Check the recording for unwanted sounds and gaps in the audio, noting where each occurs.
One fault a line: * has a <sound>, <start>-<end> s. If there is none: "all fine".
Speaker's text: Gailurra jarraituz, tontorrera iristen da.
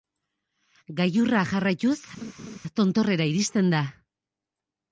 * has a laugh, 2.2-2.6 s